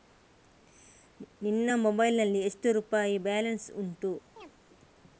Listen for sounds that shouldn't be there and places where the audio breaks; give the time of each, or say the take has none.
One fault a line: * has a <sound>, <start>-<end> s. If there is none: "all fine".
* has a chirp, 4.4-4.5 s